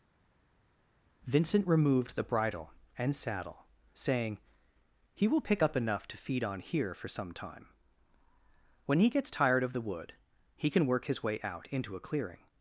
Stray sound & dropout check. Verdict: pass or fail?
pass